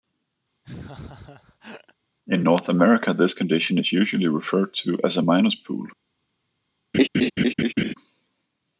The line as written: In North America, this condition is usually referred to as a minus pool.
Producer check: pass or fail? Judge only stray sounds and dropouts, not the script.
fail